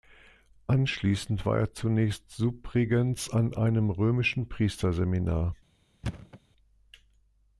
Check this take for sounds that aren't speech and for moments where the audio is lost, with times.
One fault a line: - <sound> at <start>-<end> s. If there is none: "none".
- thud at 6.0-6.4 s